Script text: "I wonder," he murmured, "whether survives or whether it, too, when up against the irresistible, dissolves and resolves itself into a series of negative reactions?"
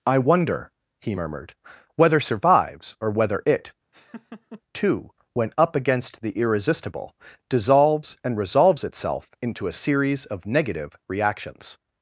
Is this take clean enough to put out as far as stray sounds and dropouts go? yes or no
no